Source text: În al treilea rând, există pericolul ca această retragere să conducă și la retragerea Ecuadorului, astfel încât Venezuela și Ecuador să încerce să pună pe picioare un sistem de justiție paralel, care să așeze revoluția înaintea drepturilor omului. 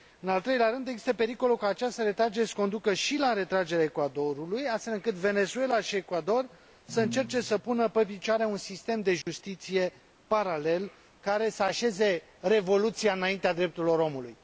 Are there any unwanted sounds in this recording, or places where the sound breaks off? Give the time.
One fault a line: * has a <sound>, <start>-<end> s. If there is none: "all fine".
* has a dropout, 9.2-9.3 s